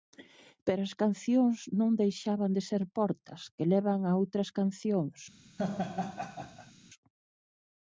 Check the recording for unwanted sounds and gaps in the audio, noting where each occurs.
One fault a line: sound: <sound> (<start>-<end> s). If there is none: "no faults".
sound: laugh (5.6-6.7 s)